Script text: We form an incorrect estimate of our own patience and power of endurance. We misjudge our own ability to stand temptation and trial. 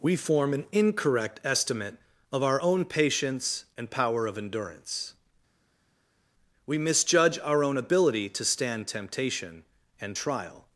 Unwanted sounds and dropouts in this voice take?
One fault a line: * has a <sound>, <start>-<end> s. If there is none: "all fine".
all fine